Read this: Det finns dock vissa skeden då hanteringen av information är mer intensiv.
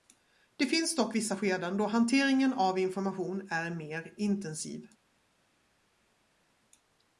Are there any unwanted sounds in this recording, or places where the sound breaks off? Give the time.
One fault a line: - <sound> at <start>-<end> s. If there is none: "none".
none